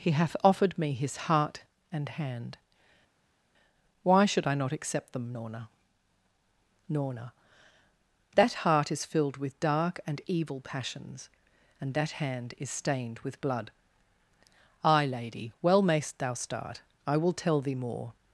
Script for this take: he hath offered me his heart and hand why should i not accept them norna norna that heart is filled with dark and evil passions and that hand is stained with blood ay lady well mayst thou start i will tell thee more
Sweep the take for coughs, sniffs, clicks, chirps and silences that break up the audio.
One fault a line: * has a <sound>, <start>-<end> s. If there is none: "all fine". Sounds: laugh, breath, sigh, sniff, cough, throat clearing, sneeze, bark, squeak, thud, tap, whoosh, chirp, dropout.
all fine